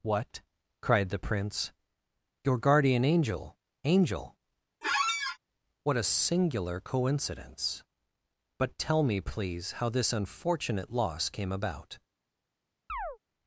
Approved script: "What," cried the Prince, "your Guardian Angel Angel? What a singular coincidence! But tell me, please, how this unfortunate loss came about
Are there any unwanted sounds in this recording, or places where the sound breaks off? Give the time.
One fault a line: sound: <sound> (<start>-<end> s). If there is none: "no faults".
sound: squeak (4.8-5.4 s)
sound: chirp (12.9-13.2 s)